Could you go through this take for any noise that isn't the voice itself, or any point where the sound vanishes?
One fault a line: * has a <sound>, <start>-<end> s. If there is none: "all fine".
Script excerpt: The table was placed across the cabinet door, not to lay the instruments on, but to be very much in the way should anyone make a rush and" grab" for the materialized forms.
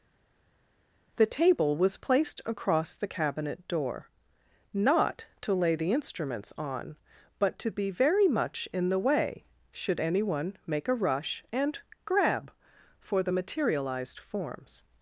all fine